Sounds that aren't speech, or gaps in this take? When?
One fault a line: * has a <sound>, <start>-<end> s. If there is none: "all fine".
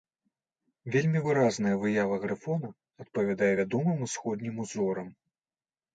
all fine